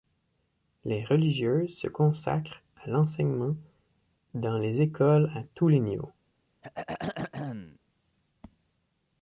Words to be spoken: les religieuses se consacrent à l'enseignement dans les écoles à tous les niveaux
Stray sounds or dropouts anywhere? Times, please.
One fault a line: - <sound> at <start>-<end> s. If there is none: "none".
- throat clearing at 6.6-7.8 s